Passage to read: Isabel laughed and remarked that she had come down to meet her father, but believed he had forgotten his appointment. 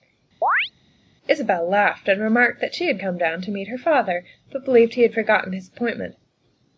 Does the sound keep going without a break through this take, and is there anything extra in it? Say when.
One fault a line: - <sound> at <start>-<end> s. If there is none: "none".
- chirp at 0.4-0.7 s